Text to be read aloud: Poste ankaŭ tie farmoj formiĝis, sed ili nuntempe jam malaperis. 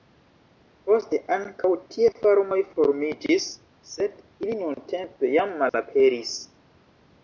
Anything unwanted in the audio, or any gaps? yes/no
yes